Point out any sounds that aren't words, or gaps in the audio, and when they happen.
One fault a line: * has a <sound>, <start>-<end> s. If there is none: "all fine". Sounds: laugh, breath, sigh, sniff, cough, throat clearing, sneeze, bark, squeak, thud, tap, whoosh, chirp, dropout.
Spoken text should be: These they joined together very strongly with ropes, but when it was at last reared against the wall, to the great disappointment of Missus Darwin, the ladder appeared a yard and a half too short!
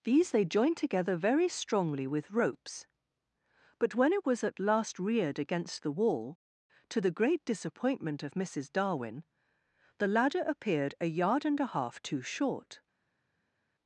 all fine